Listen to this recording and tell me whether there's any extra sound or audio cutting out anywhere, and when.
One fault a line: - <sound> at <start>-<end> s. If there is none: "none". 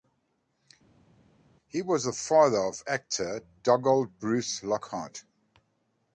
none